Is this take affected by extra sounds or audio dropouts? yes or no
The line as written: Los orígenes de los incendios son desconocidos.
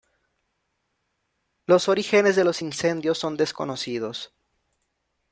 no